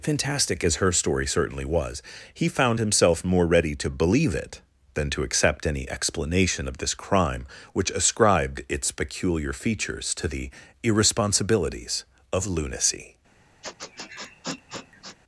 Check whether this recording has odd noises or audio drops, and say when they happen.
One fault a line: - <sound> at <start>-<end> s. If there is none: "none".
- sniff at 13.6-15.2 s